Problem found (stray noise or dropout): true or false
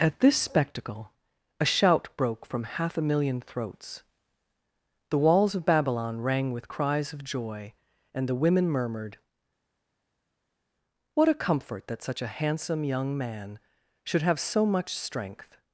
false